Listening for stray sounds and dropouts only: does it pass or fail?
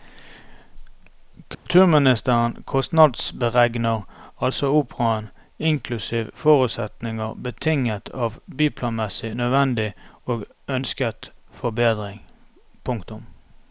fail